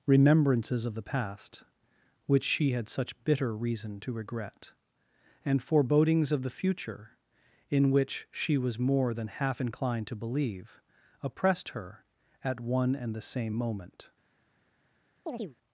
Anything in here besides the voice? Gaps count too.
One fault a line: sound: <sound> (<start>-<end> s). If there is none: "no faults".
sound: chirp (15.3-15.6 s)